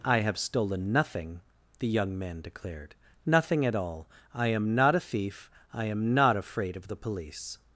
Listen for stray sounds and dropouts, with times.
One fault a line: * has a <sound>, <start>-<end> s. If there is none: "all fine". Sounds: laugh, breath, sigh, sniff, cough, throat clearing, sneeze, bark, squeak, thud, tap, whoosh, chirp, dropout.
all fine